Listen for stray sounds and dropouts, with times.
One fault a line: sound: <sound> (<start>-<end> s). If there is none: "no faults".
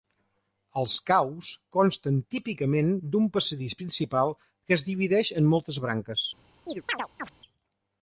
sound: chirp (6.7-7.3 s)